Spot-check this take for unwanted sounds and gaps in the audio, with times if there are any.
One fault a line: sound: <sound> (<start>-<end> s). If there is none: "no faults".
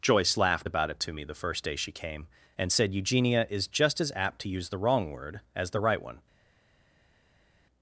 no faults